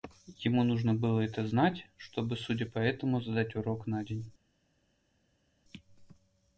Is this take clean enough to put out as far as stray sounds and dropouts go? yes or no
yes